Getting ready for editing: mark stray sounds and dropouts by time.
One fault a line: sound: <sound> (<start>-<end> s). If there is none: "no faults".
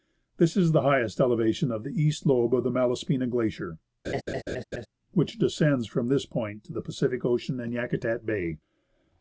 sound: laugh (4.0-4.9 s)